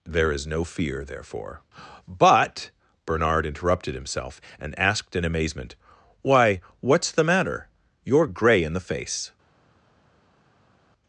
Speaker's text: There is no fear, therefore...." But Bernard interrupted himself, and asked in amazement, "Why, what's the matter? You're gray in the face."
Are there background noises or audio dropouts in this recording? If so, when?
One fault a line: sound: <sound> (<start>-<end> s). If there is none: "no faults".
no faults